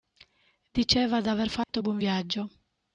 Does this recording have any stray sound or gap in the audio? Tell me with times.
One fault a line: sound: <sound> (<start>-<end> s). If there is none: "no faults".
sound: dropout (1.6-1.7 s)